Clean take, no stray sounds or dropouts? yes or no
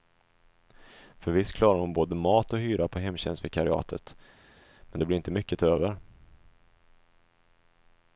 yes